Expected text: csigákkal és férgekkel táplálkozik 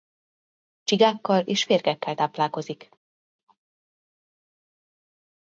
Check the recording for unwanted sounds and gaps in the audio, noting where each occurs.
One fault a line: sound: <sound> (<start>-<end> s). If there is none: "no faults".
no faults